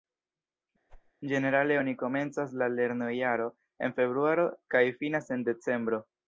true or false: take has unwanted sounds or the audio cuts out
true